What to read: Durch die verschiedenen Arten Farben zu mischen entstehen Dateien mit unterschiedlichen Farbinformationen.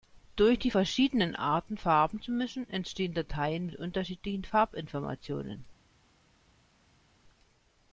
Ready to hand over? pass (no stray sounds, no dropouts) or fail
pass